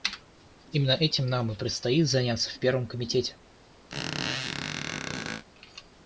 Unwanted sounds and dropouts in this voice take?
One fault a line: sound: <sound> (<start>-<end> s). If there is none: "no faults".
sound: squeak (3.9-5.4 s)